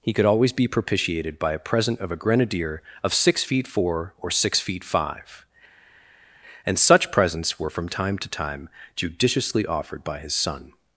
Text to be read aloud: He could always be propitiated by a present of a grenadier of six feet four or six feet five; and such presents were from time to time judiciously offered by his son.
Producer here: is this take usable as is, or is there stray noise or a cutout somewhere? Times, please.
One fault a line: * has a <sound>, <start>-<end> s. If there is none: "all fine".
all fine